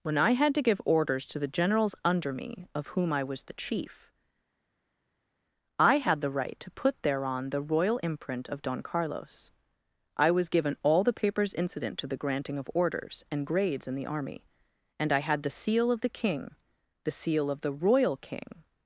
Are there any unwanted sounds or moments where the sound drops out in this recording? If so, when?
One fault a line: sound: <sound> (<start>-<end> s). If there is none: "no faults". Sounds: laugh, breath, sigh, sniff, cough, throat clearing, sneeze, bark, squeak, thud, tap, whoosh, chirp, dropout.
no faults